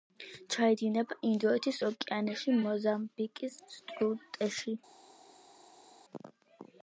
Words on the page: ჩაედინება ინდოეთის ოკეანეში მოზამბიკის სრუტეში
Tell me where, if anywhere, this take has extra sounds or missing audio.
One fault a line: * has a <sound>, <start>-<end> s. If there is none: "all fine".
all fine